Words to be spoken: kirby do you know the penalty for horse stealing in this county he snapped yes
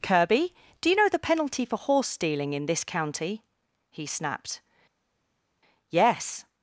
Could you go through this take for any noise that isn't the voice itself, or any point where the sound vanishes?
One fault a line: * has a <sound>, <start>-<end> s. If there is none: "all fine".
all fine